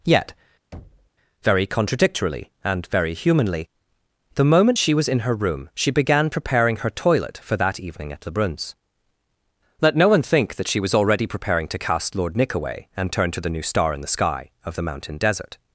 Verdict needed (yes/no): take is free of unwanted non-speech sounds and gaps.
no